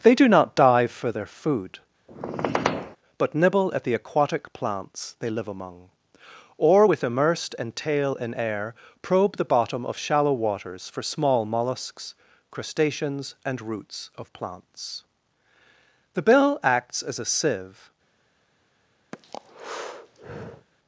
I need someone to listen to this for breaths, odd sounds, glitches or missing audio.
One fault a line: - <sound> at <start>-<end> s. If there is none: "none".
- squeak at 2.1-3.0 s
- breath at 19.1-20.7 s